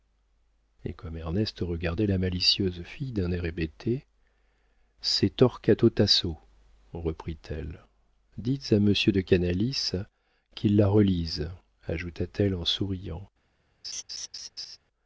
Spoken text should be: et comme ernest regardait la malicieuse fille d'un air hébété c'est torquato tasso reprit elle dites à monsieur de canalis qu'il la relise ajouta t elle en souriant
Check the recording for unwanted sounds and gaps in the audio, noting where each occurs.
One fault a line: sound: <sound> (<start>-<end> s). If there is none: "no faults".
sound: laugh (13.8-14.8 s)